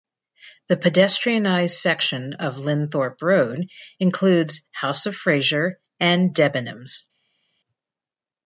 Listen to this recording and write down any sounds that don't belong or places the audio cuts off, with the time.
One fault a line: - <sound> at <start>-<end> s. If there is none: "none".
none